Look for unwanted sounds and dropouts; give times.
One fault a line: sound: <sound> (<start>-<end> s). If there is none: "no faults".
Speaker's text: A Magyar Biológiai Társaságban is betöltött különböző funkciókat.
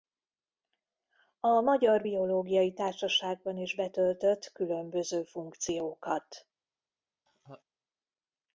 sound: laugh (7.3-7.6 s)